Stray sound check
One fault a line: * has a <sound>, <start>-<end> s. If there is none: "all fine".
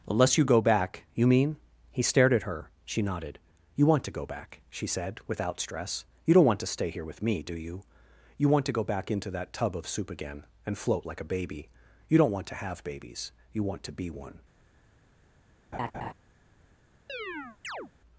* has a laugh, 15.7-16.1 s
* has a chirp, 17.1-17.9 s